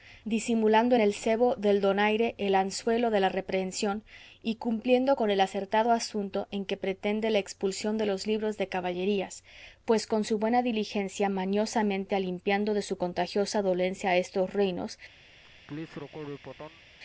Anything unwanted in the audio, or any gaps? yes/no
yes